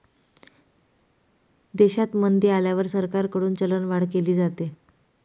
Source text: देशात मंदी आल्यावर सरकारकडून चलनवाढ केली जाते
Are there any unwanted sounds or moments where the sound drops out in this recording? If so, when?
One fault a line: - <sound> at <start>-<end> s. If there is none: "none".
none